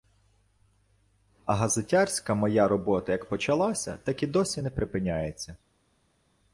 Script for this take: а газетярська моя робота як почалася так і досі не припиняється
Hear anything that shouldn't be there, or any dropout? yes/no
no